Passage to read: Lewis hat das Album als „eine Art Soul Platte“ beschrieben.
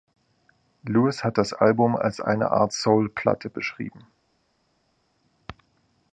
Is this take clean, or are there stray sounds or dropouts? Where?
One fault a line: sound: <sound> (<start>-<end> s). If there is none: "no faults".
no faults